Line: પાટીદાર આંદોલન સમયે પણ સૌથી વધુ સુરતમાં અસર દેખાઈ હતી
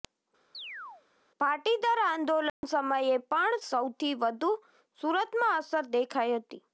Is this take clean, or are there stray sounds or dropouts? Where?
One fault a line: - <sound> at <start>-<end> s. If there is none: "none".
- chirp at 0.5-1.0 s
- dropout at 2.5-2.6 s